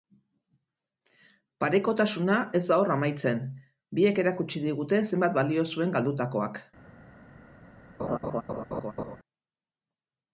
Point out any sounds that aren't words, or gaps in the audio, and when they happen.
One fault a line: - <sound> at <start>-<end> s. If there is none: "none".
- laugh at 8.0-9.2 s